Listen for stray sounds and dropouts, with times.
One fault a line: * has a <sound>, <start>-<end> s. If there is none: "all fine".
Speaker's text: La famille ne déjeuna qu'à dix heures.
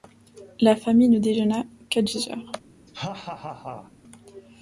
* has a laugh, 2.9-3.9 s